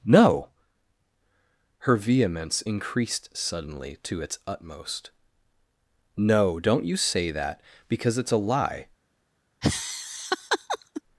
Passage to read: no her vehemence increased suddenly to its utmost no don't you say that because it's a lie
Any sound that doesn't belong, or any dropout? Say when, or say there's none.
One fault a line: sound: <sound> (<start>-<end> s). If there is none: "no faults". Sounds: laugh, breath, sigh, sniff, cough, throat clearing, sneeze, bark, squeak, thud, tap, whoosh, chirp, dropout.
sound: laugh (9.6-11.0 s)